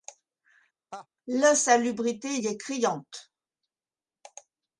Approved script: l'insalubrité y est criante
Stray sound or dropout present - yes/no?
yes